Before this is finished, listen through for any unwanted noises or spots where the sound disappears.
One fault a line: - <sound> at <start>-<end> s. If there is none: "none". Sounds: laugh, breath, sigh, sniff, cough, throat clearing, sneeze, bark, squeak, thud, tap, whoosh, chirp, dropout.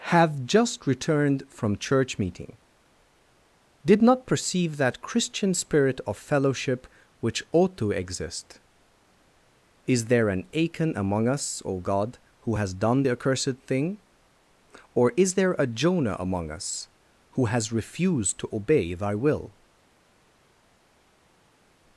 none